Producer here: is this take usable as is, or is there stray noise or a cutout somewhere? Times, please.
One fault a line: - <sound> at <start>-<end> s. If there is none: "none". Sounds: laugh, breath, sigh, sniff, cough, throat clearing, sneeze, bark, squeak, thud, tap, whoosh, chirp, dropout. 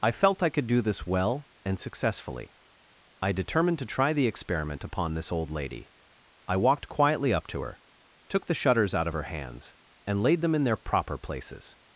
none